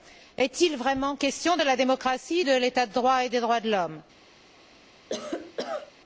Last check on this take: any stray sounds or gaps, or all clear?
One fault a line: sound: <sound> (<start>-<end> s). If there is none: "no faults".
sound: cough (5.1-5.9 s)